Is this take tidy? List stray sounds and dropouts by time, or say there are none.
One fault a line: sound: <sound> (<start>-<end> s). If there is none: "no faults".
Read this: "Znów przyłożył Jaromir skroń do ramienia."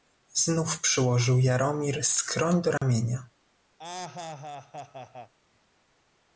sound: dropout (2.8-2.8 s)
sound: laugh (3.8-5.3 s)